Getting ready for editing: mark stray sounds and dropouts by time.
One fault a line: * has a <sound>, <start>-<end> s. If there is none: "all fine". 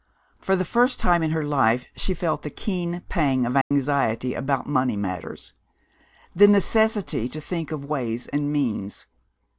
* has a dropout, 3.6-3.7 s